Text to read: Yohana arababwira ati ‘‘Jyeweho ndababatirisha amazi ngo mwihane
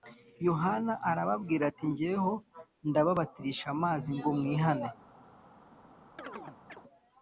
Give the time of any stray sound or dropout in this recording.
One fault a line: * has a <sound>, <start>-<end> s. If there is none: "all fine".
* has a chirp, 6.2-6.8 s